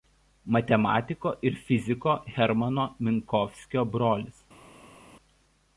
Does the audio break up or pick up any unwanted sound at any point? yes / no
no